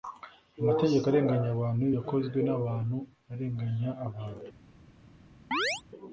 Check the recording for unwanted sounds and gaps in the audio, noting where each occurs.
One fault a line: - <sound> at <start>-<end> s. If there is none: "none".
- chirp at 5.5-5.8 s